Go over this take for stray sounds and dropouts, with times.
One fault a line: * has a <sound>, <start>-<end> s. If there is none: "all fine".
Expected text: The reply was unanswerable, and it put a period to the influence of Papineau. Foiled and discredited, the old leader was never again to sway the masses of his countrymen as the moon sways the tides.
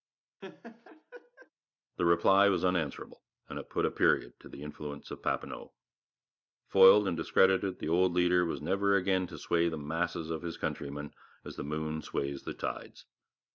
* has a laugh, 0.4-1.5 s